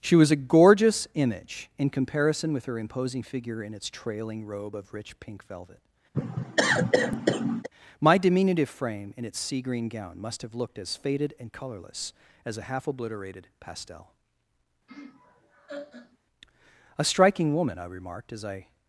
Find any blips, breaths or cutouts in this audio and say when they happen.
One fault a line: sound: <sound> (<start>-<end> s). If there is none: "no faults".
sound: cough (6.1-7.7 s)
sound: laugh (14.9-16.2 s)